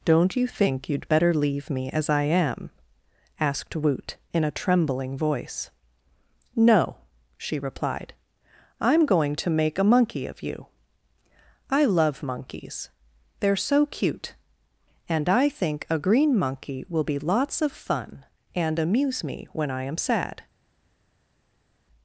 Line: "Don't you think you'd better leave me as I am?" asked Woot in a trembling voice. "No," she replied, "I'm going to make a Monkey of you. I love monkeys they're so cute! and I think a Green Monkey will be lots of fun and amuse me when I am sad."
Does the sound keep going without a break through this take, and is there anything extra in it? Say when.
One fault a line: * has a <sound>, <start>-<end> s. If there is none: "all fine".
all fine